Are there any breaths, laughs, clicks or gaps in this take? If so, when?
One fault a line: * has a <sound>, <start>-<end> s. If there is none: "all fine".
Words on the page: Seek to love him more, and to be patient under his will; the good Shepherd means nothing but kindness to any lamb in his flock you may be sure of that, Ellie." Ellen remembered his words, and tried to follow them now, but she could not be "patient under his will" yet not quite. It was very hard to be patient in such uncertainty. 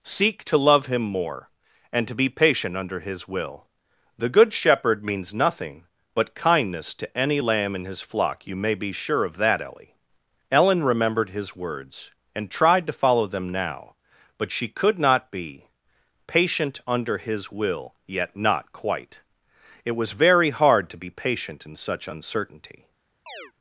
* has a chirp, 23.3-23.5 s